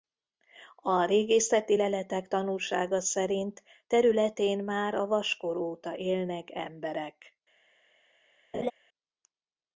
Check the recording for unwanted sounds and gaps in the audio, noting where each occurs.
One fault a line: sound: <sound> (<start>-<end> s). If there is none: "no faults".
sound: laugh (8.5-8.7 s)